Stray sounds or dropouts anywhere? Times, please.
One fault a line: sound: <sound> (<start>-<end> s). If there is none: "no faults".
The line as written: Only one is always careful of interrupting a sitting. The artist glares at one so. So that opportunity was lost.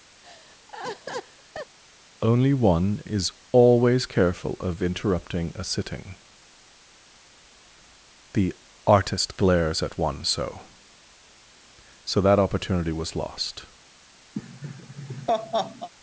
sound: laugh (0.2-1.8 s)
sound: laugh (14.3-15.9 s)